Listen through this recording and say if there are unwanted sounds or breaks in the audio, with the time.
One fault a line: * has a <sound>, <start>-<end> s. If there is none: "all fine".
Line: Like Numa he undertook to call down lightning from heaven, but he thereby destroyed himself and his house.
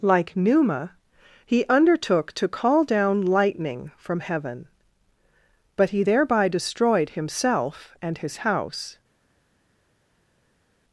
all fine